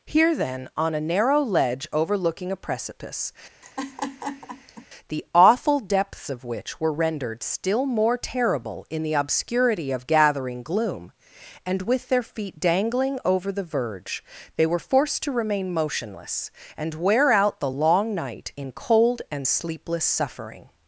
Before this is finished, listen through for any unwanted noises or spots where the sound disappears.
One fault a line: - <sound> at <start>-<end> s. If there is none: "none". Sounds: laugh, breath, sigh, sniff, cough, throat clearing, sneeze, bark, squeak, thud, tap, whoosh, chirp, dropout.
- laugh at 3.6-4.9 s